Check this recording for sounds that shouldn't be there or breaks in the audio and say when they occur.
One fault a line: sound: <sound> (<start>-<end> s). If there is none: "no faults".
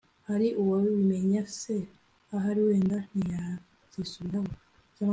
no faults